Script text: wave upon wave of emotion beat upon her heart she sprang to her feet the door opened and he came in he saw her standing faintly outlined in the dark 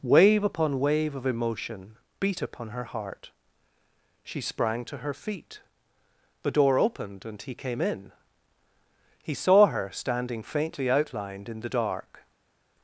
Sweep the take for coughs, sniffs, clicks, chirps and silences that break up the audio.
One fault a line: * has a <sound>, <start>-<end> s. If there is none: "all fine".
all fine